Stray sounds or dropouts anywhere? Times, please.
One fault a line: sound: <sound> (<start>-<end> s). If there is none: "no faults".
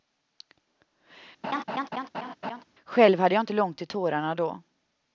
sound: laugh (1.4-2.6 s)